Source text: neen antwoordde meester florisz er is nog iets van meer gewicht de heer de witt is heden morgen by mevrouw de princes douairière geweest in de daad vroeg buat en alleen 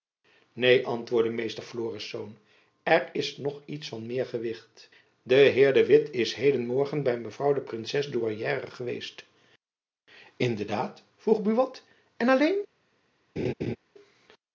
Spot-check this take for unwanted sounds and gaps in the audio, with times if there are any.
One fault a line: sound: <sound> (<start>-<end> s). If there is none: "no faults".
sound: laugh (13.4-13.8 s)